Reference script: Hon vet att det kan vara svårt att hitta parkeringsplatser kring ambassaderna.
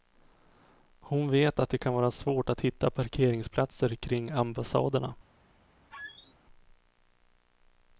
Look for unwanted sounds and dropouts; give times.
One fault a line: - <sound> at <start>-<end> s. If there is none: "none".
- squeak at 5.9-6.3 s